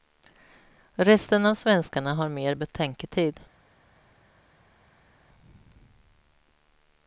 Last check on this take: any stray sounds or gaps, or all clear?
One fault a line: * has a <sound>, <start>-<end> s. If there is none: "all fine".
all fine